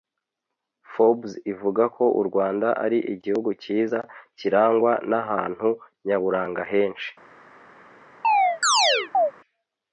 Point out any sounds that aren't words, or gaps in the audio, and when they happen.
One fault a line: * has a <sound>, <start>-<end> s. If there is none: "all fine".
* has a chirp, 8.2-9.3 s